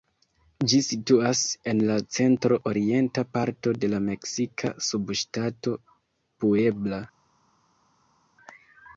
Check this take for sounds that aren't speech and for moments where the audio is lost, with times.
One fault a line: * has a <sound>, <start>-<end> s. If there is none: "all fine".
all fine